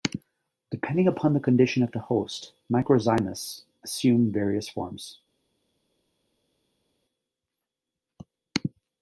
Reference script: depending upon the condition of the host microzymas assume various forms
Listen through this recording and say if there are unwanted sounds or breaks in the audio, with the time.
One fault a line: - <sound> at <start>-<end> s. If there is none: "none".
none